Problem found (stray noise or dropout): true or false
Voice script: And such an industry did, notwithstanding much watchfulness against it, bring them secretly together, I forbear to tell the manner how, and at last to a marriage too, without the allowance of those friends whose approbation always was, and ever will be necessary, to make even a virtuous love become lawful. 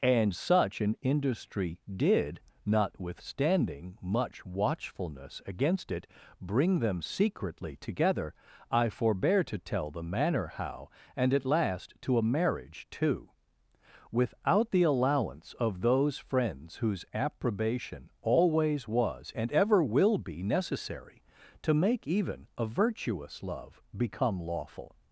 false